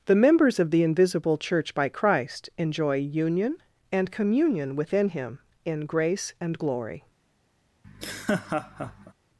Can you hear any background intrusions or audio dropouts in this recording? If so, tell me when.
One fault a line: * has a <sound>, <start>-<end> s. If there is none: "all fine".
* has a laugh, 7.8-9.1 s